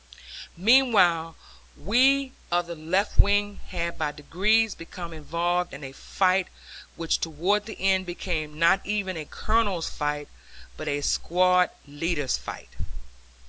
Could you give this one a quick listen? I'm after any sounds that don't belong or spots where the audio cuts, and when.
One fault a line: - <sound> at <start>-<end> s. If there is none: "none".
none